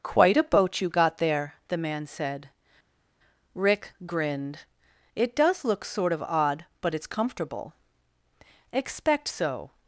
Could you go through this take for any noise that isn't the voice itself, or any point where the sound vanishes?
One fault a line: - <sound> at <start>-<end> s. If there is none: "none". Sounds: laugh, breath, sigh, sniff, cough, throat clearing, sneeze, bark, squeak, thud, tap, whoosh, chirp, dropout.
none